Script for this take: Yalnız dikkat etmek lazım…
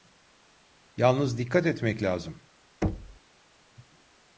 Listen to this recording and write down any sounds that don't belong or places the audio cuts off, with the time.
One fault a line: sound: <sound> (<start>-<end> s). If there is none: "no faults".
sound: thud (2.8-3.2 s)